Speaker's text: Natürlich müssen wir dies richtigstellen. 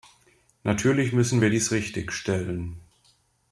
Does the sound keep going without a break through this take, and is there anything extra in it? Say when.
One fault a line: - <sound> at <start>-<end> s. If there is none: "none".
none